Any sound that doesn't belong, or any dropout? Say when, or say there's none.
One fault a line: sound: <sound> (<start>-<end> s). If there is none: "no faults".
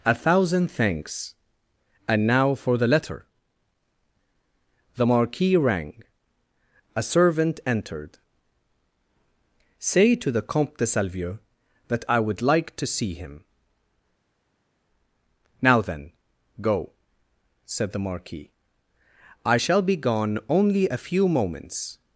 no faults